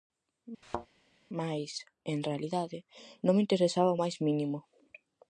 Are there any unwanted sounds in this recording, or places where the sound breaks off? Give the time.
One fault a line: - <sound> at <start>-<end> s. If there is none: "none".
- thud at 0.6-0.9 s